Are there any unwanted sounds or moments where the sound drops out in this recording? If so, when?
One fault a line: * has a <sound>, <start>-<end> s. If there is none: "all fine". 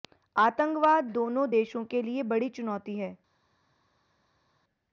all fine